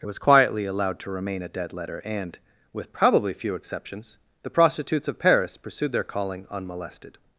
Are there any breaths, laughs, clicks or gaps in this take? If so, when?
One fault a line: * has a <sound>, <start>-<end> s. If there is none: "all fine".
all fine